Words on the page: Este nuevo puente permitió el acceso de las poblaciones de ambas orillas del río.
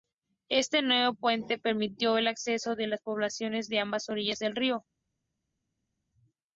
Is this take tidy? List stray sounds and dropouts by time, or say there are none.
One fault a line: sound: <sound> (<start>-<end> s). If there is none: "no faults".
no faults